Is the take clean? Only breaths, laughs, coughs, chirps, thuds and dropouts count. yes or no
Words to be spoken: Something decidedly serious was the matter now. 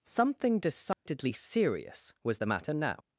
no